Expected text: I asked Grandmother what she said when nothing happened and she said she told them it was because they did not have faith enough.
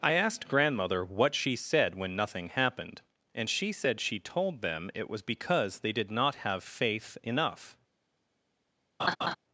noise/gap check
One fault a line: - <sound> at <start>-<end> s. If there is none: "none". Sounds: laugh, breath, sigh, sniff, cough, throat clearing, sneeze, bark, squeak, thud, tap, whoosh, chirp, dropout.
- laugh at 9.0-9.4 s